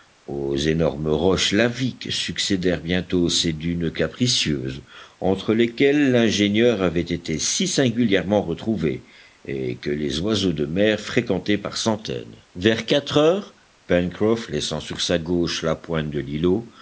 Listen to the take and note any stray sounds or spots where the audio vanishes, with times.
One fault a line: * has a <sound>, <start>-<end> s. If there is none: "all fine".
all fine